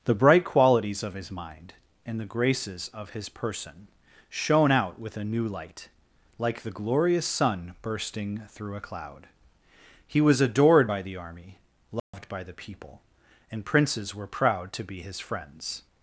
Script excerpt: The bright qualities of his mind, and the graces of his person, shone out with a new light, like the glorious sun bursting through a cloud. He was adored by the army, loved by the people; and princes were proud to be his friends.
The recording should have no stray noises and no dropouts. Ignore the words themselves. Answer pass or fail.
fail